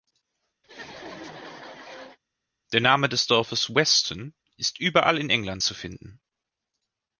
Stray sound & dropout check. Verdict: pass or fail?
fail